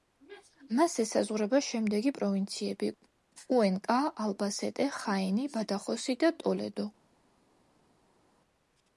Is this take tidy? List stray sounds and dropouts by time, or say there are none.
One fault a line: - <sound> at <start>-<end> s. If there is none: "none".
none